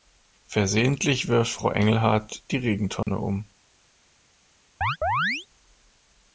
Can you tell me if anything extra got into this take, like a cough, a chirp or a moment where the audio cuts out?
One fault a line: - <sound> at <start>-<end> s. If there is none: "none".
- dropout at 3.0-3.1 s
- chirp at 4.8-5.5 s